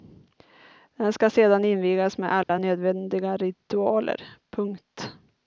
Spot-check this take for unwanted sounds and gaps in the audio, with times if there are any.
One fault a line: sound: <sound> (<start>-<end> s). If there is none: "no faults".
sound: dropout (2.4-2.5 s)